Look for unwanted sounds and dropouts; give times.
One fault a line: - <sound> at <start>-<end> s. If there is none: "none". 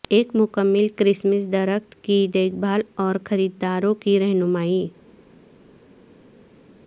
none